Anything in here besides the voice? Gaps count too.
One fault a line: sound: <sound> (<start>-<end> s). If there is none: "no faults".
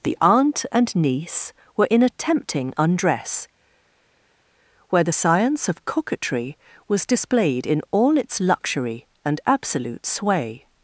no faults